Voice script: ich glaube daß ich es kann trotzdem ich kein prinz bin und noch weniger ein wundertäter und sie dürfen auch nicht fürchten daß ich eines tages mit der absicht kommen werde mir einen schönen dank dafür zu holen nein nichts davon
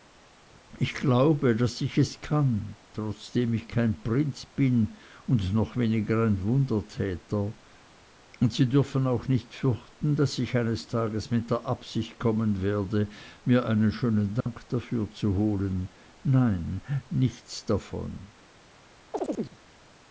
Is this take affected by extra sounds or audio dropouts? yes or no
yes